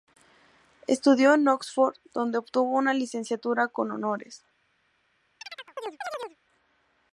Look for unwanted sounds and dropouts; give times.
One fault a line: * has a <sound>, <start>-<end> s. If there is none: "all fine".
* has a chirp, 5.4-6.4 s